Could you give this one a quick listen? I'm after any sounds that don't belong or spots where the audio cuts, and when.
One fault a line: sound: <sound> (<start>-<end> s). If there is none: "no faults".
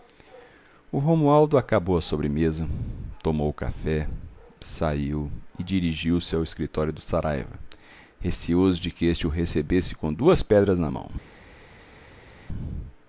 no faults